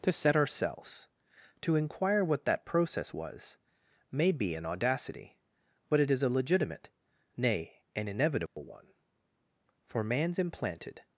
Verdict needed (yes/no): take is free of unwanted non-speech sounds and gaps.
no